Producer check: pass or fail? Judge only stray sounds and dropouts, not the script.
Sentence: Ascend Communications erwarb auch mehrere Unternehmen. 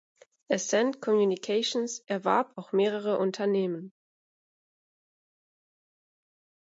pass